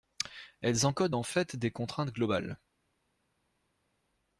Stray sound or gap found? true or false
false